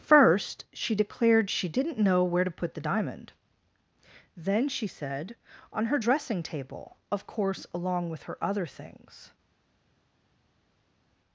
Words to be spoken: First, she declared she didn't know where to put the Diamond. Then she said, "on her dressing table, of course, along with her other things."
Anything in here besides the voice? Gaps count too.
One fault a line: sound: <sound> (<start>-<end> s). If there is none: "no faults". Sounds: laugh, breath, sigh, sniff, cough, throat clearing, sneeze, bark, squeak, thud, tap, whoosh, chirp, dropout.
no faults